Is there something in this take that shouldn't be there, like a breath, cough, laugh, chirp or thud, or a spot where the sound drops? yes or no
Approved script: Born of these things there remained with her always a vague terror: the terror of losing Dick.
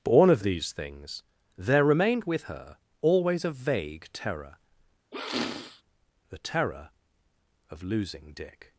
yes